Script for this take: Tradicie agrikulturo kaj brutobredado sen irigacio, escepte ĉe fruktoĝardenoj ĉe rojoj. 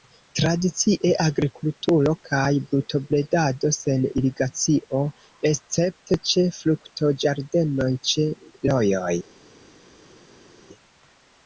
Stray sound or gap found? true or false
false